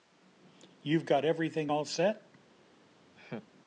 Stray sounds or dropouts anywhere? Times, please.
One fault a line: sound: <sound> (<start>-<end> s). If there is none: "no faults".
sound: laugh (3.1-3.5 s)